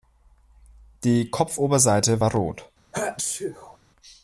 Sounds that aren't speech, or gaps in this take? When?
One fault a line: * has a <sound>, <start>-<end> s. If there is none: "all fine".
* has a sneeze, 2.9-3.8 s